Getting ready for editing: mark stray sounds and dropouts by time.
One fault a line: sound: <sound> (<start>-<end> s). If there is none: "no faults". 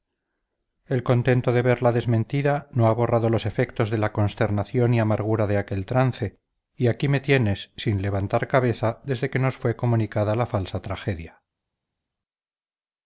no faults